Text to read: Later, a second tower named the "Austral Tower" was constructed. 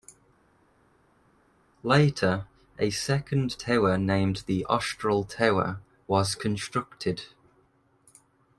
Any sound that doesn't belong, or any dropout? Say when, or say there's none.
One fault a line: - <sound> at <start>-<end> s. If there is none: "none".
none